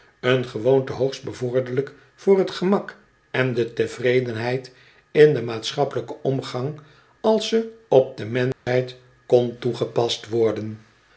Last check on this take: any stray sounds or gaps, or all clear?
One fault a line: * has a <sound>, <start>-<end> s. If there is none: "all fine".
* has a dropout, 8.5-8.7 s